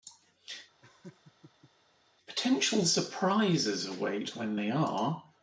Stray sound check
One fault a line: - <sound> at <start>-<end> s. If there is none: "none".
- laugh at 0.8-1.7 s